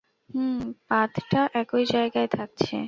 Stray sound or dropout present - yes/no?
no